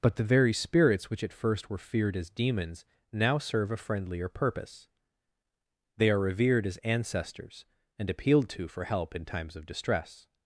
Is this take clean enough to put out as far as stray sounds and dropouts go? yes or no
yes